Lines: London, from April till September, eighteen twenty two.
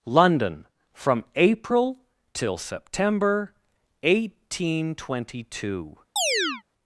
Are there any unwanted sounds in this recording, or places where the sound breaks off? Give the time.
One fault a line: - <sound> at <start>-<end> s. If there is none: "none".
- chirp at 6.2-6.6 s